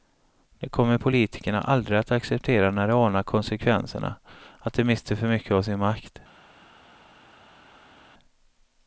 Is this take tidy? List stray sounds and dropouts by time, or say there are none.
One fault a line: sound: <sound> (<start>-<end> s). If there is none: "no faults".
no faults